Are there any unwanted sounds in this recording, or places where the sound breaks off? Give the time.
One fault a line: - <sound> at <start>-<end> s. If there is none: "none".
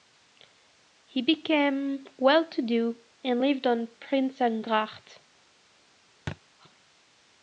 - thud at 6.3-6.4 s